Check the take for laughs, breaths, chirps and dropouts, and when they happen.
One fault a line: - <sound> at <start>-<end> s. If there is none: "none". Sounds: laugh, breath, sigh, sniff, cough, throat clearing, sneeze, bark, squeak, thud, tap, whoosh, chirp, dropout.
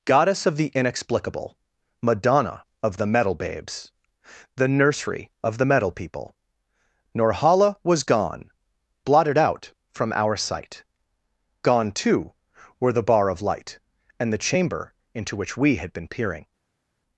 none